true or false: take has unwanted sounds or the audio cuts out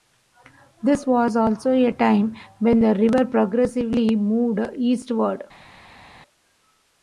false